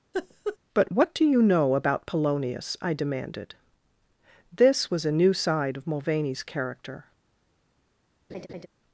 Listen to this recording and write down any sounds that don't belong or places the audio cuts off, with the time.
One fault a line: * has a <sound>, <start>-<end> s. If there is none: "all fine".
* has a laugh, 0.1-0.6 s
* has a laugh, 8.3-8.7 s